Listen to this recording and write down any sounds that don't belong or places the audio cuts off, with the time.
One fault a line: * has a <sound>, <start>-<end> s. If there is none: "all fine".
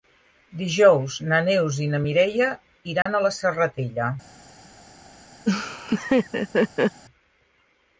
* has a dropout, 3.0-3.1 s
* has a laugh, 5.5-7.0 s